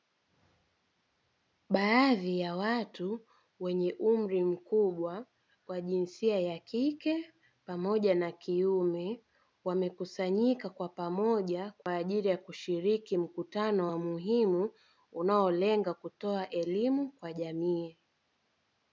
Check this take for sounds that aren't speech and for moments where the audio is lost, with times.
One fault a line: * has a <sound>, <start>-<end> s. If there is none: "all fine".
* has a dropout, 11.8-11.9 s